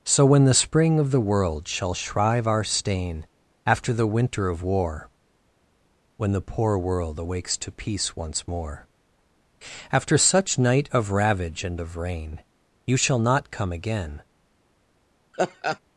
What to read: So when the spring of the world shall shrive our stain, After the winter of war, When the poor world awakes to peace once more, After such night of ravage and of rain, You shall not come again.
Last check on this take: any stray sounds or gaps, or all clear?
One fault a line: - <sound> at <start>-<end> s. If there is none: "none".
- laugh at 15.3-15.8 s